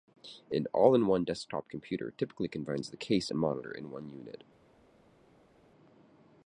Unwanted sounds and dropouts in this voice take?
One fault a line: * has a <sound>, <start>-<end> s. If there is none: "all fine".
all fine